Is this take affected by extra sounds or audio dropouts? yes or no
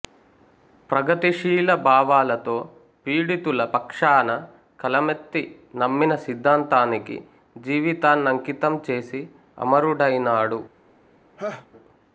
yes